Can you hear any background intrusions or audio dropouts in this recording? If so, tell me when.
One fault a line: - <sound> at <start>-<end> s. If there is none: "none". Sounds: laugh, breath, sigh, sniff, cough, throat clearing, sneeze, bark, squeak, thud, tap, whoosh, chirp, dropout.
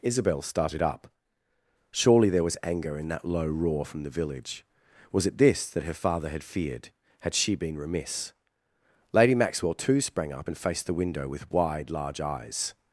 none